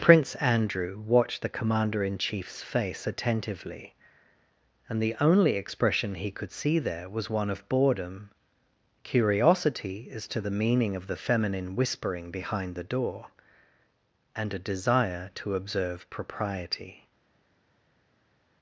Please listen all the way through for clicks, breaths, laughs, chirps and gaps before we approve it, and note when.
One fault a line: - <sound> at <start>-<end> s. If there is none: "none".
none